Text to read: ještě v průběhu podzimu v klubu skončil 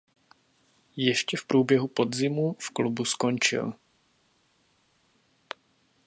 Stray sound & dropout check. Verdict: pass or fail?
pass